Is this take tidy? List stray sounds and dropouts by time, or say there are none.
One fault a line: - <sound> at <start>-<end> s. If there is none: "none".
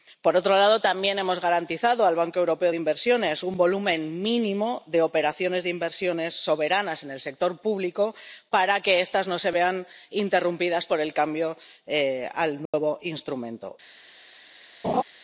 - dropout at 12.7-12.7 s
- laugh at 14.8-15.0 s